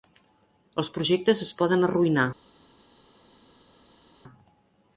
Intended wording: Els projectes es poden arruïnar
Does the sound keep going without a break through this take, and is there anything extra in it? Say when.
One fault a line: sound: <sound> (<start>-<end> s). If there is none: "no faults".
no faults